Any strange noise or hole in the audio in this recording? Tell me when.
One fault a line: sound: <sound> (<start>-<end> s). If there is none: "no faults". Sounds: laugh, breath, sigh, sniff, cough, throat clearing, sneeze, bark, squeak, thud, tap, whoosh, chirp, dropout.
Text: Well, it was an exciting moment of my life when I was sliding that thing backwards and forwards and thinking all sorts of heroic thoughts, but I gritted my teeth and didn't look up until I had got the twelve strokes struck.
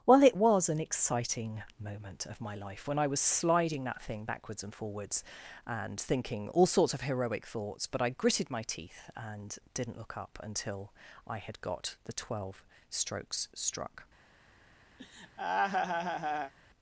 sound: laugh (15.0-16.5 s)